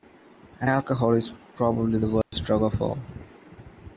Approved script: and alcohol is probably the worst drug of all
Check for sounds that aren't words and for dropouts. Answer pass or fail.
fail